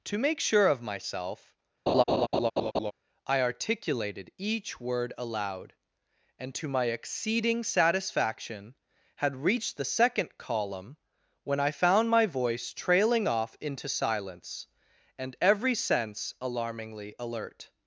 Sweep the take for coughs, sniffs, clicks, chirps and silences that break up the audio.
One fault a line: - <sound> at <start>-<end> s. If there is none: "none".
- laugh at 1.9-2.9 s